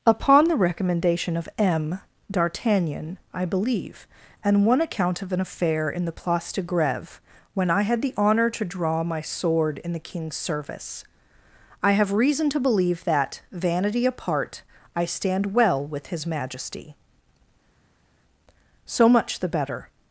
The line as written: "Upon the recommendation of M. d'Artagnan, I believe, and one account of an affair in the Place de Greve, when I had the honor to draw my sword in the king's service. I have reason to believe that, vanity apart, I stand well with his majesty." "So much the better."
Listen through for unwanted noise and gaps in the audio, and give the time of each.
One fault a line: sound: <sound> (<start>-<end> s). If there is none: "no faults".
no faults